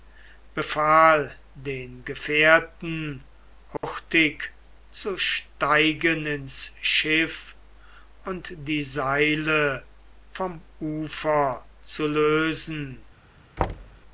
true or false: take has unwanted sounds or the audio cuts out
true